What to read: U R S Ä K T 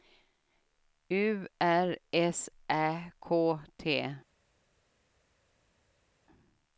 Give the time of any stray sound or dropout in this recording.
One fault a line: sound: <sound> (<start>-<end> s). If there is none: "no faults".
no faults